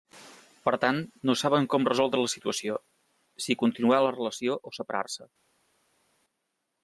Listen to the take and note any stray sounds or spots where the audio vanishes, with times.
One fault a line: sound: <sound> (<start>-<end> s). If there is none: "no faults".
no faults